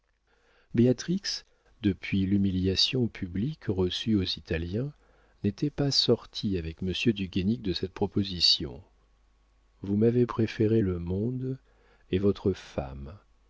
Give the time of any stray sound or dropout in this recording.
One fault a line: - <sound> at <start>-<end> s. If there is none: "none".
none